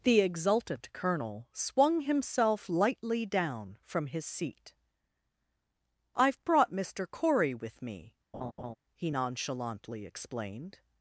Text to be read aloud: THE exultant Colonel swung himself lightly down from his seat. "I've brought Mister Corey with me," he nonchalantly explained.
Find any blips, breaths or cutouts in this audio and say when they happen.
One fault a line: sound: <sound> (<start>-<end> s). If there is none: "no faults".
sound: laugh (8.3-8.7 s)